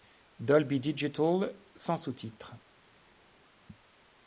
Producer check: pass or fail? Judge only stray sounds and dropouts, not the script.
pass